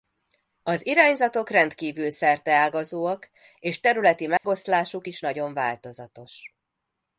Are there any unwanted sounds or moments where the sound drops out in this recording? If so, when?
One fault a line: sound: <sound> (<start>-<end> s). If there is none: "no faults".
sound: dropout (4.4-4.4 s)